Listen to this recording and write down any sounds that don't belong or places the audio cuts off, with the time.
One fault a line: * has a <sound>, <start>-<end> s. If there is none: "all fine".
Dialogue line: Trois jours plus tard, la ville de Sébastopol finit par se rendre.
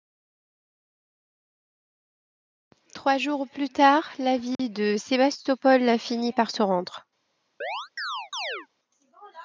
* has a dropout, 4.5-4.6 s
* has a chirp, 7.6-8.7 s